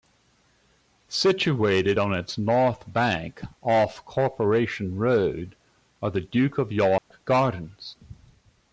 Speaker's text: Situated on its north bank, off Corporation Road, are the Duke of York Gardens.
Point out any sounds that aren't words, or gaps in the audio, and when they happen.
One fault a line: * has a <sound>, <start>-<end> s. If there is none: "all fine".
* has a dropout, 7.0-7.1 s